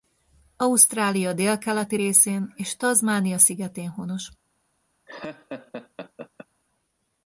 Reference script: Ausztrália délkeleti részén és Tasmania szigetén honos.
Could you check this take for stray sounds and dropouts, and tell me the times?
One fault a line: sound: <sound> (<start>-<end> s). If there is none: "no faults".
sound: laugh (5.1-6.5 s)